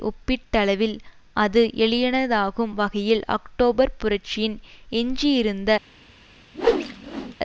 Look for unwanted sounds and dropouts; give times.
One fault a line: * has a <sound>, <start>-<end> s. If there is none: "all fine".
* has a whoosh, 6.5-7.4 s